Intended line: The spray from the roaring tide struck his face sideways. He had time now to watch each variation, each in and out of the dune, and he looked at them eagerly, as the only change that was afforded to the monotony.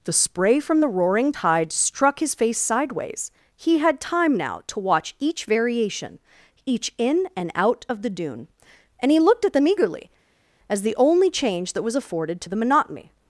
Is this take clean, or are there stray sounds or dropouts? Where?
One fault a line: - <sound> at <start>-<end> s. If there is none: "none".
none